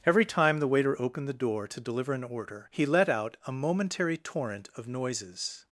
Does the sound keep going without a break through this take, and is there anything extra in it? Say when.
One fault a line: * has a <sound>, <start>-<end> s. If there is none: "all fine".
all fine